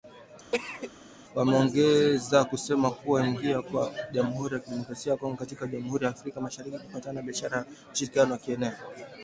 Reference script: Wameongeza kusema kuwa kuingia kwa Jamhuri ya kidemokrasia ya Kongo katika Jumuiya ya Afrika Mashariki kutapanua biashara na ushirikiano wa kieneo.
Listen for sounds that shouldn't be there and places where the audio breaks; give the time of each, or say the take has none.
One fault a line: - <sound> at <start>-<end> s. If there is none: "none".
- cough at 0.5-0.9 s